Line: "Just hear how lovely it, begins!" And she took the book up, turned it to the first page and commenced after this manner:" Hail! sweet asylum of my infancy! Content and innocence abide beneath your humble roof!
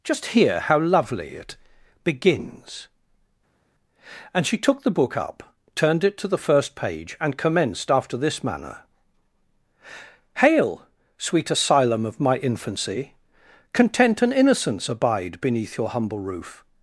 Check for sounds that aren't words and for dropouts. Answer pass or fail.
pass